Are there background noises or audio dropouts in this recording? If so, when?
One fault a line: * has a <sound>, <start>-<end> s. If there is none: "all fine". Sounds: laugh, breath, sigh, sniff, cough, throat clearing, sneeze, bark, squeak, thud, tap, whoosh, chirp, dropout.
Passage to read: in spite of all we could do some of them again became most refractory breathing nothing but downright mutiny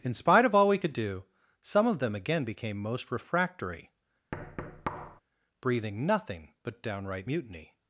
* has a thud, 4.3-5.2 s